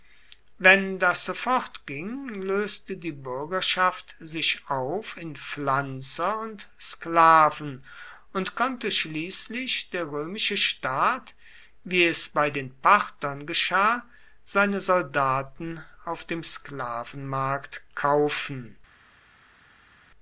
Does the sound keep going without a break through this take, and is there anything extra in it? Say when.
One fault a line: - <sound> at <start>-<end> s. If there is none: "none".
none